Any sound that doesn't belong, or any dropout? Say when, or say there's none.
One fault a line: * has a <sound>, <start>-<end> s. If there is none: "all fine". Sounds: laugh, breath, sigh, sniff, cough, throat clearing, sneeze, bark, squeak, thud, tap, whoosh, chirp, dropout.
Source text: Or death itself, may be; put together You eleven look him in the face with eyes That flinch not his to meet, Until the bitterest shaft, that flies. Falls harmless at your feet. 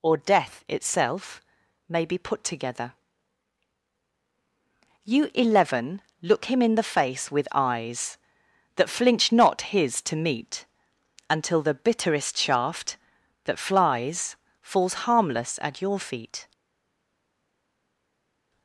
all fine